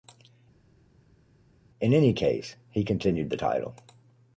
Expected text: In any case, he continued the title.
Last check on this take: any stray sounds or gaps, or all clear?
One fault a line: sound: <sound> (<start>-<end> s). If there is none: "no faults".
no faults